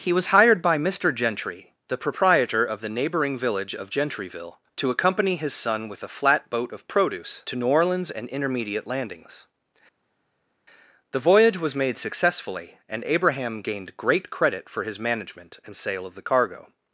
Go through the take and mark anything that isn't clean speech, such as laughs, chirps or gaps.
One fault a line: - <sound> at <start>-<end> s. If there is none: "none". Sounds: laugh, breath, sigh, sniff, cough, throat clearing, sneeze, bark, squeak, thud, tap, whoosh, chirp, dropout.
none